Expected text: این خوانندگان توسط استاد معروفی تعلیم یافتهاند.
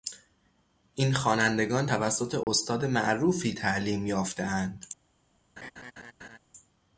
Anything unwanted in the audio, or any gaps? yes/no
yes